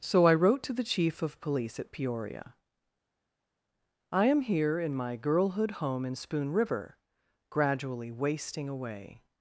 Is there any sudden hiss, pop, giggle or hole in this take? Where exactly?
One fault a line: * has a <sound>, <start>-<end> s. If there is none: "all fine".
all fine